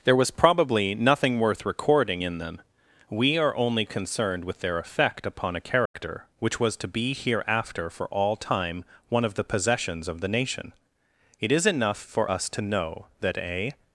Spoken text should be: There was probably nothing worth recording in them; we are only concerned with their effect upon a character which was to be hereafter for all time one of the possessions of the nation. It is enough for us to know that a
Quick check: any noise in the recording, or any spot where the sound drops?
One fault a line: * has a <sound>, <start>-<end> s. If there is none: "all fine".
* has a dropout, 5.9-5.9 s